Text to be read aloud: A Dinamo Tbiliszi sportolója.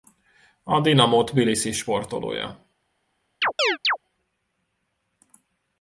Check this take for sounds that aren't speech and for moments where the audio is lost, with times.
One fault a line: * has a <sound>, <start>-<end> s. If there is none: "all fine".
* has a chirp, 3.4-4.0 s